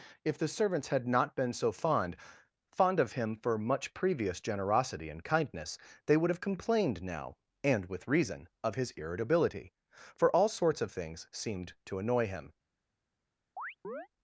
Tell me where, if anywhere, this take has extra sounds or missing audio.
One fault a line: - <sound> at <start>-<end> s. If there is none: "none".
- chirp at 13.6-14.1 s